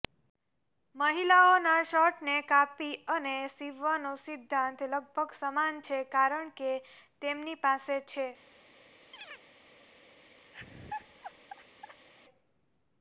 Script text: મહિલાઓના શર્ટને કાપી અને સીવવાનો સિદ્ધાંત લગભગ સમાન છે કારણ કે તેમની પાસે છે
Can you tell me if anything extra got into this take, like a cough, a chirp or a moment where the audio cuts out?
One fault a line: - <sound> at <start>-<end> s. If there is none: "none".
- chirp at 9.1-9.4 s
- laugh at 10.5-12.1 s